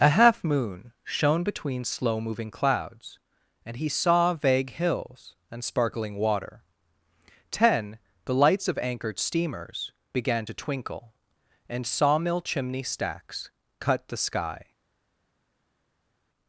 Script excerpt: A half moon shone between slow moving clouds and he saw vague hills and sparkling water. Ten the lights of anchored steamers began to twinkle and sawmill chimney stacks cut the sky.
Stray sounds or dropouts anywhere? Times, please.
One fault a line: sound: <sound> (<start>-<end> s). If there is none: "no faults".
no faults